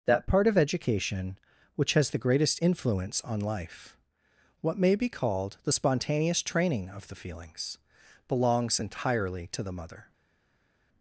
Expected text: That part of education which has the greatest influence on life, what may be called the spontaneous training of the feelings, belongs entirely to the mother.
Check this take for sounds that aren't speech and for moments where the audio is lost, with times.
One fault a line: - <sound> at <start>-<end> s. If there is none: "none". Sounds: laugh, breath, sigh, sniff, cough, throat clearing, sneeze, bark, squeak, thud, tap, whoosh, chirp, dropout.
none